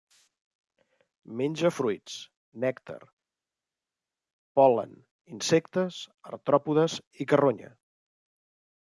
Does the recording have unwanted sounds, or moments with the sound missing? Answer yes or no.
no